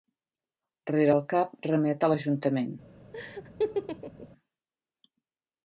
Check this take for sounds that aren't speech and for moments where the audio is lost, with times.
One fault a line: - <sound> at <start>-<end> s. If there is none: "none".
- laugh at 3.1-4.3 s